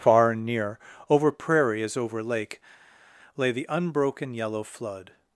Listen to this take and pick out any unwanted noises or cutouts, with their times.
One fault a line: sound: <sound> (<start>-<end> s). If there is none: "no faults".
no faults